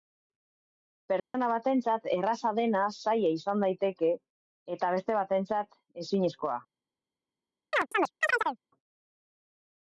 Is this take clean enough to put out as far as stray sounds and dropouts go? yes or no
no